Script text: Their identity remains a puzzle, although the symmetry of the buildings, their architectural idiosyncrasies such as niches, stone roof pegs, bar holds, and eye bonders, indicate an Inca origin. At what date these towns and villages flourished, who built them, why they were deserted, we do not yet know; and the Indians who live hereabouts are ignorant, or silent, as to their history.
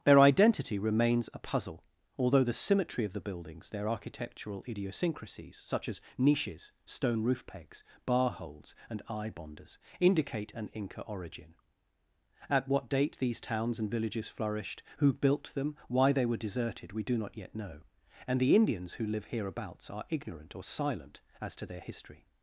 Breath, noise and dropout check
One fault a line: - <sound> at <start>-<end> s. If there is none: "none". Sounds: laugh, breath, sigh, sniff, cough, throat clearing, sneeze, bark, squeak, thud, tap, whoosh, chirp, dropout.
none